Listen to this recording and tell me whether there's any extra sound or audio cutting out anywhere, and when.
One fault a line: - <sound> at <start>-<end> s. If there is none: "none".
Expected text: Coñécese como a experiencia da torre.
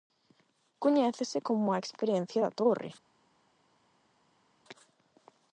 none